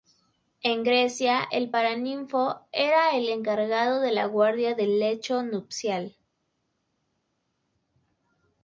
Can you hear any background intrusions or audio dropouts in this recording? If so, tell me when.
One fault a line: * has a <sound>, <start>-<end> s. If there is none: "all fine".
all fine